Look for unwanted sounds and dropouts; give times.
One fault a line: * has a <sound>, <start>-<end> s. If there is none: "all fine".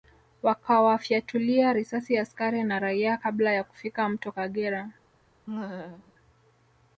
* has a laugh, 5.5-6.1 s